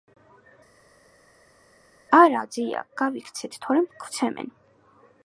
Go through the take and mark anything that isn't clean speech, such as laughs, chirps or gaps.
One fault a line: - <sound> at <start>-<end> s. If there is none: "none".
none